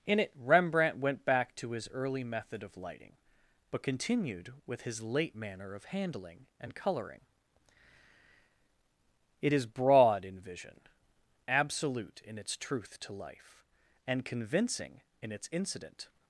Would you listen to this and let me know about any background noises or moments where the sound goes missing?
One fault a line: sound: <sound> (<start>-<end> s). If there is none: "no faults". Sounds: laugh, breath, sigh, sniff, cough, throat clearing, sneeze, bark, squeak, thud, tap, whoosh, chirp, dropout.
no faults